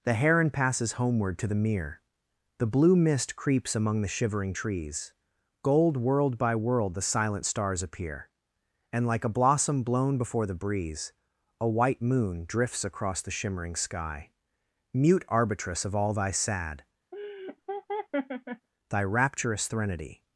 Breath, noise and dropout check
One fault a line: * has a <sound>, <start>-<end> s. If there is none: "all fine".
* has a laugh, 17.1-18.7 s